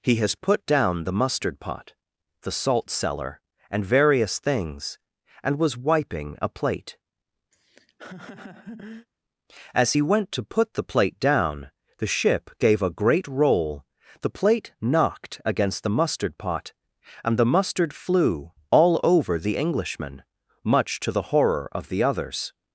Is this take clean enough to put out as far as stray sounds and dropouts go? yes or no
no